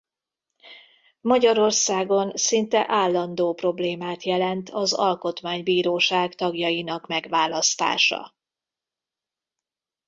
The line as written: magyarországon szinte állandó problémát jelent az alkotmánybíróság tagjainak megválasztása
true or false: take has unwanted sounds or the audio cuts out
false